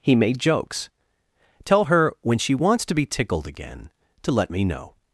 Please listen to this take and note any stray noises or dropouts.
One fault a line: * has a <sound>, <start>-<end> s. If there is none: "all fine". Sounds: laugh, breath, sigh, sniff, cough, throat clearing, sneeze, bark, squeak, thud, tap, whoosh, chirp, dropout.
all fine